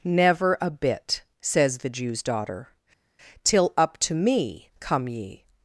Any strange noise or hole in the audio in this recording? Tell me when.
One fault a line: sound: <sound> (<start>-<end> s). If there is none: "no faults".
no faults